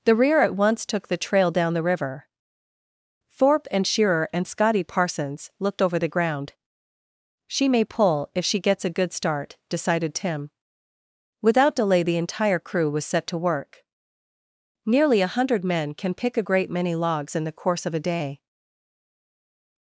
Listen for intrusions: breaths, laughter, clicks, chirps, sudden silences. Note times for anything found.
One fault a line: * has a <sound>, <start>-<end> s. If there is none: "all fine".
all fine